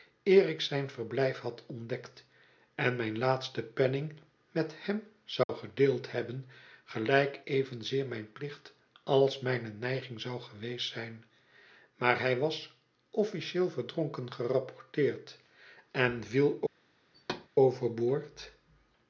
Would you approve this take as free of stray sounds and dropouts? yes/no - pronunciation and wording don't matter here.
no